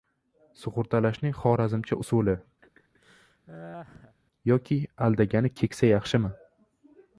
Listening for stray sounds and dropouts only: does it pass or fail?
fail